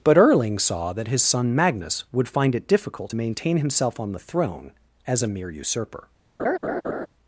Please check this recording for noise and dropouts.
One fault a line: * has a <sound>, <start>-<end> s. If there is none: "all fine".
* has a laugh, 6.4-7.1 s